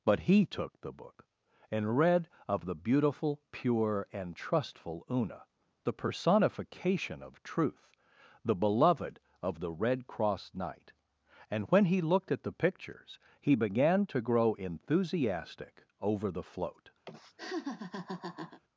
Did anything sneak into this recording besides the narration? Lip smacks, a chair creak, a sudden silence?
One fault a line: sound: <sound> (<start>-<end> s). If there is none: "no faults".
sound: laugh (17.1-18.6 s)